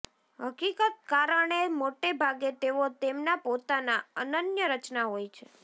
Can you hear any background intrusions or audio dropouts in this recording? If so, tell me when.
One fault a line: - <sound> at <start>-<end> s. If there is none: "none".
none